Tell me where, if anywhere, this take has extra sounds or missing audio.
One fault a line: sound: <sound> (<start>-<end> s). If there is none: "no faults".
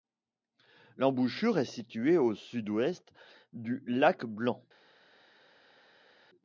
no faults